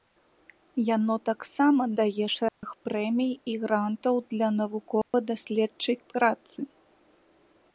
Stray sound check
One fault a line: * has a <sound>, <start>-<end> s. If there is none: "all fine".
* has a dropout, 2.5-2.6 s
* has a dropout, 5.0-5.1 s